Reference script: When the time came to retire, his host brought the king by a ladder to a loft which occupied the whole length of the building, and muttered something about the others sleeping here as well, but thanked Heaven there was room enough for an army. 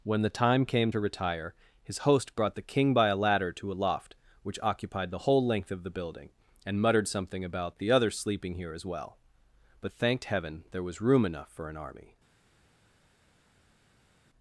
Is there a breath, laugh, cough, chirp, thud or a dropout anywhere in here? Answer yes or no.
no